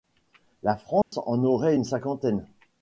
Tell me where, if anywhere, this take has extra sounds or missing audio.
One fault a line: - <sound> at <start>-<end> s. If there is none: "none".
- dropout at 1.0-1.1 s